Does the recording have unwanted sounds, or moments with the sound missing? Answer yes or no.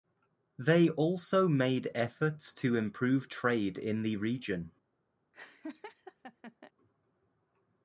yes